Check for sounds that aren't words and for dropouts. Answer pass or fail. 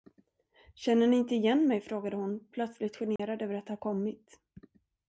fail